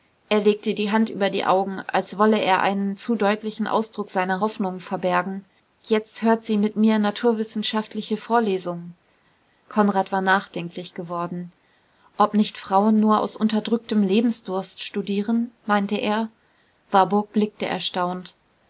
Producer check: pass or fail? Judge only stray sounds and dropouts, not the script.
pass